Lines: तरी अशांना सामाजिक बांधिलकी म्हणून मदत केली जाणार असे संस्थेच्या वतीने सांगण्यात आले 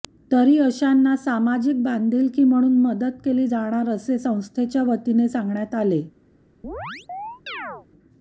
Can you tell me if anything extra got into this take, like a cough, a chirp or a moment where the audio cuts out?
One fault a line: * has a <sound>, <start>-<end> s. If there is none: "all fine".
* has a chirp, 6.6-7.9 s